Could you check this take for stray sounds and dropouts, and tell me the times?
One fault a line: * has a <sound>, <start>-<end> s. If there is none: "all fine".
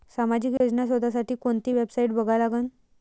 * has a dropout, 0.6-0.6 s